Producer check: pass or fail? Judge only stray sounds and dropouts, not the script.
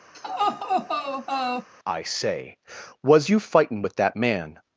fail